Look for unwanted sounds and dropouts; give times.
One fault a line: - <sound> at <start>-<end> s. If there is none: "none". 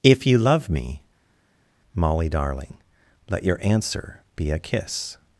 none